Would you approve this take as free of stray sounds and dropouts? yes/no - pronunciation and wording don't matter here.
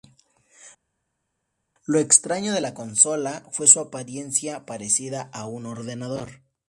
yes